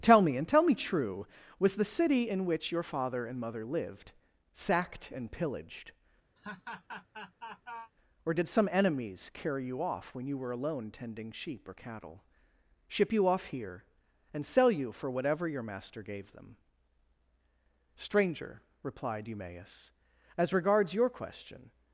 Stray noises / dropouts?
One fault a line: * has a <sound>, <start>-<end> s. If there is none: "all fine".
* has a laugh, 6.4-7.9 s